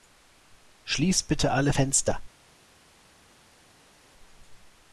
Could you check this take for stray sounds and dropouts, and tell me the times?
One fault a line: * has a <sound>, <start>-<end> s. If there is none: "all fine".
all fine